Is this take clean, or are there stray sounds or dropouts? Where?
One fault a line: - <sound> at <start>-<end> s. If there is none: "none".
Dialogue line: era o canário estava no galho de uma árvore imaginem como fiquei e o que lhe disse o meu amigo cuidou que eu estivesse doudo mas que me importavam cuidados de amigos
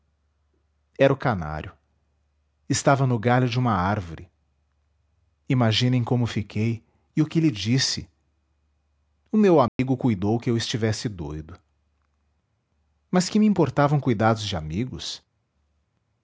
- dropout at 9.7-9.8 s